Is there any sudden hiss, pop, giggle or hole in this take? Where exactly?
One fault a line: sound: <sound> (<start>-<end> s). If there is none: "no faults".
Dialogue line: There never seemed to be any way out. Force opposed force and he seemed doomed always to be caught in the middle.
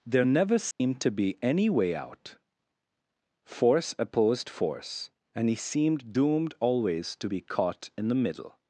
sound: dropout (0.7-0.8 s)